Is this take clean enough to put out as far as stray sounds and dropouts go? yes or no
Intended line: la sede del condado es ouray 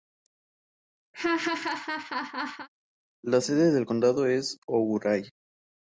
no